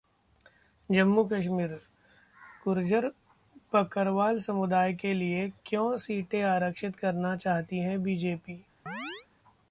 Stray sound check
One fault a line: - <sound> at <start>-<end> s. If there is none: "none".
- chirp at 8.9-9.3 s